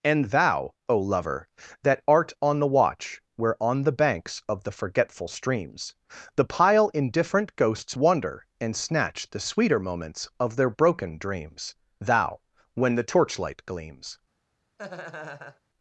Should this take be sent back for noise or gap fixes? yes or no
yes